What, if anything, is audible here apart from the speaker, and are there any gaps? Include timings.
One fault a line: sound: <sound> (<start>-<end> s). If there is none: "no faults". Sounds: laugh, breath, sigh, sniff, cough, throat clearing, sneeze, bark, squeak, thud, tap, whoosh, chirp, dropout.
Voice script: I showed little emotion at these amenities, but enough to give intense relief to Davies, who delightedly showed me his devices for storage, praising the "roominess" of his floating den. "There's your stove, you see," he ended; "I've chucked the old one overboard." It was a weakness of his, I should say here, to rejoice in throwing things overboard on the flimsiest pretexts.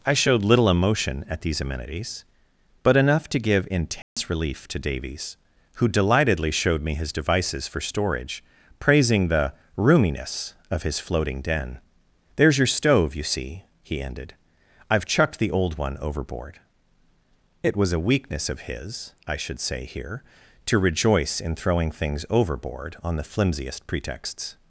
sound: dropout (4.0-4.2 s)